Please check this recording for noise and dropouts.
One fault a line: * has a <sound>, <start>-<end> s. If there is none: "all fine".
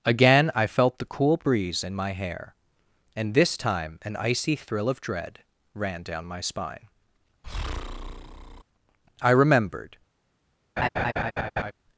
* has a breath, 7.4-8.6 s
* has a laugh, 10.8-11.7 s